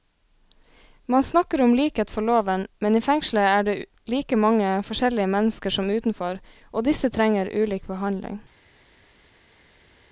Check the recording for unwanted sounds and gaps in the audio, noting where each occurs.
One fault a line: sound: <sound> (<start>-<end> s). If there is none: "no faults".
no faults